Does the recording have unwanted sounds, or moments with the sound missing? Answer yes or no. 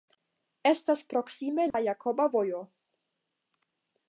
yes